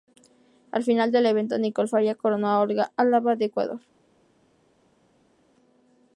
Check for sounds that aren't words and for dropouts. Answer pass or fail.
pass